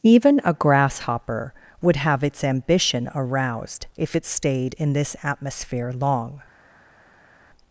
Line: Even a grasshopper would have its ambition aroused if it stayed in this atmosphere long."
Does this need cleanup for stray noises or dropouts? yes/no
no